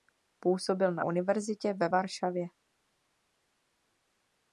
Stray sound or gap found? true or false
false